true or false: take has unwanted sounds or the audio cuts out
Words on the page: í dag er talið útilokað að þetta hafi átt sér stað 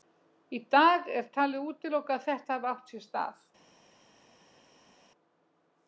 false